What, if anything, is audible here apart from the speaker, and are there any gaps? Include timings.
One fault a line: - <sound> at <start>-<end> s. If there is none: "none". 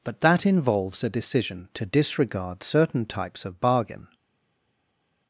none